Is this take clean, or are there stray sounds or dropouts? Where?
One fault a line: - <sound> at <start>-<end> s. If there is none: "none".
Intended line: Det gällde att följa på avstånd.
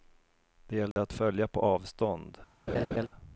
- dropout at 0.9-1.0 s
- laugh at 2.7-3.1 s